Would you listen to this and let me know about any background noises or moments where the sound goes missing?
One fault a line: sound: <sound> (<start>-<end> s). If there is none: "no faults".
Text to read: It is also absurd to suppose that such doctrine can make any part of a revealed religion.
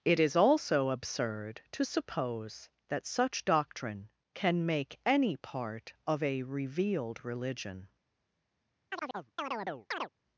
sound: chirp (8.9-10.1 s)